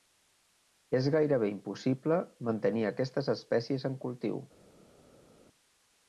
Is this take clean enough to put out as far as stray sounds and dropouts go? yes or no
yes